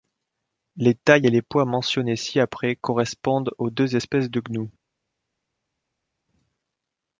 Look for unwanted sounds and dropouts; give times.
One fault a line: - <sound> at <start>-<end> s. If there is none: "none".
none